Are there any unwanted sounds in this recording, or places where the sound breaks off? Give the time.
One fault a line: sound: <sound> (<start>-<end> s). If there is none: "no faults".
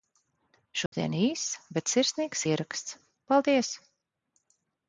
sound: dropout (0.9-0.9 s)